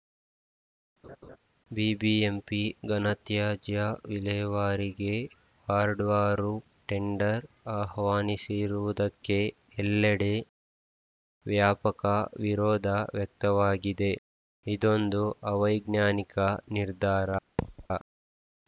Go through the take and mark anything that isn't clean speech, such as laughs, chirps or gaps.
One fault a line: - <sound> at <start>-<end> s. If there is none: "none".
- laugh at 1.0-1.4 s
- thud at 17.6-17.9 s